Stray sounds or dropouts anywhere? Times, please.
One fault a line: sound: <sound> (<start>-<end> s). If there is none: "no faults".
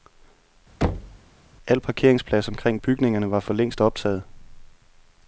sound: thud (0.8-1.2 s)